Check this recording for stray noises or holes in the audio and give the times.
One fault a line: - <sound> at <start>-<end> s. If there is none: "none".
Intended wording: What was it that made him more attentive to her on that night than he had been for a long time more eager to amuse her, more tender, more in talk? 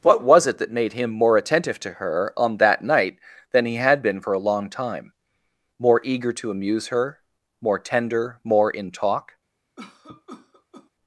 - cough at 9.8-10.9 s